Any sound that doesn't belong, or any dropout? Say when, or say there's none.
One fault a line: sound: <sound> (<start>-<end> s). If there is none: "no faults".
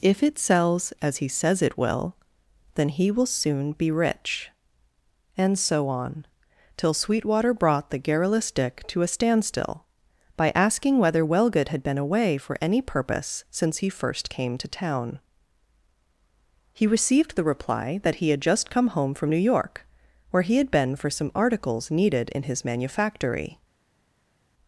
no faults